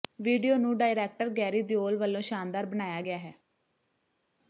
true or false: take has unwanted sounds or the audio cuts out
false